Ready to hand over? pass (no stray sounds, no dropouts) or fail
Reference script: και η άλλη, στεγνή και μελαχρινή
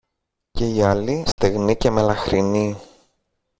fail